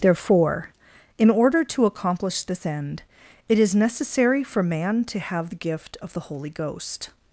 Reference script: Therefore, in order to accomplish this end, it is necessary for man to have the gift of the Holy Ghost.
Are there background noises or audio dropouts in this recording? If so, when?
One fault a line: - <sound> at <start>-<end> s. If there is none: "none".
none